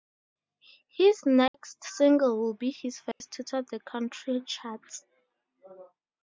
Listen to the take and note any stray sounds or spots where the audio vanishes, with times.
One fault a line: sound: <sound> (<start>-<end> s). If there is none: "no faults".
sound: dropout (1.5-1.5 s)
sound: dropout (3.1-3.2 s)